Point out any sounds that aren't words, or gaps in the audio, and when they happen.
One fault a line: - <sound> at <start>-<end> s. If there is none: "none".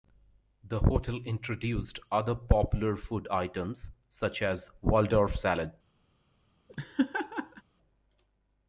- laugh at 6.7-7.6 s